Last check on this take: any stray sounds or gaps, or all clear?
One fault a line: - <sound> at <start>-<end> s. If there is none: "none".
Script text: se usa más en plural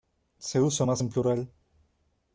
none